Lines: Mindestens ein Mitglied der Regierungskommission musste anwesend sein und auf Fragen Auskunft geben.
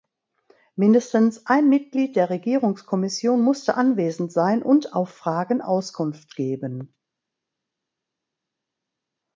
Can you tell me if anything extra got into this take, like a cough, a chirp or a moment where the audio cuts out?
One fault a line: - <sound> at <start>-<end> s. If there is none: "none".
none